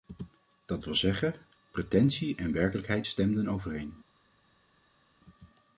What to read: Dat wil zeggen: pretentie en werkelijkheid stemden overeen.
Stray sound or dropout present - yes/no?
no